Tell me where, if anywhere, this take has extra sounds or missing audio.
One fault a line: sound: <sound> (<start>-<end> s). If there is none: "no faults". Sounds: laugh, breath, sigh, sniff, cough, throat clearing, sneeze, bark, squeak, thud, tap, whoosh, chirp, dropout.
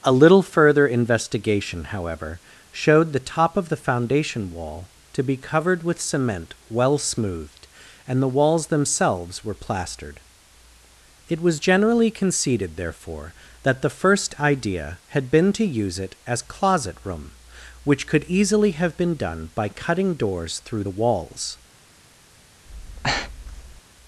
sound: breath (22.7-23.8 s)